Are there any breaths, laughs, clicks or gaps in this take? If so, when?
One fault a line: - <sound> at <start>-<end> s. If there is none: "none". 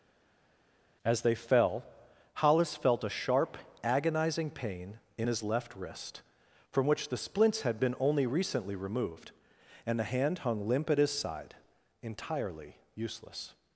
none